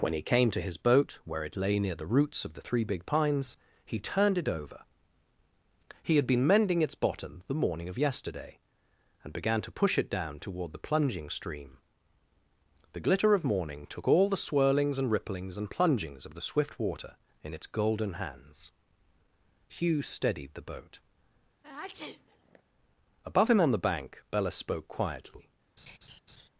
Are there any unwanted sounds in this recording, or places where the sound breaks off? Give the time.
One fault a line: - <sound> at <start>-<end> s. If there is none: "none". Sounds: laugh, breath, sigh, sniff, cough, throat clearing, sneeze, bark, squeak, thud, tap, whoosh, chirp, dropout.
- sneeze at 21.6-22.6 s
- laugh at 25.8-26.5 s